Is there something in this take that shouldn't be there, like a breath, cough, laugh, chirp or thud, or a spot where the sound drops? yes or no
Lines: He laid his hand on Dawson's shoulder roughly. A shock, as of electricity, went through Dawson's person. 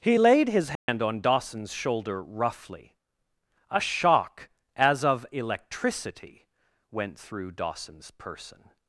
yes